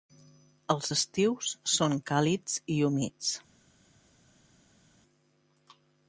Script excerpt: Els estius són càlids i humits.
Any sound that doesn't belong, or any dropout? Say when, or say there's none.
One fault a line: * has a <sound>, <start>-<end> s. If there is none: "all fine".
all fine